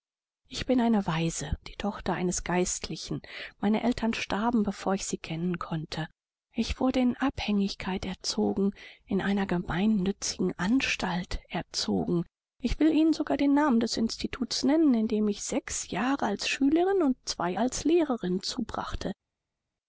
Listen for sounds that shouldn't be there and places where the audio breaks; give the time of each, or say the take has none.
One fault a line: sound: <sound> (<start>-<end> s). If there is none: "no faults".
no faults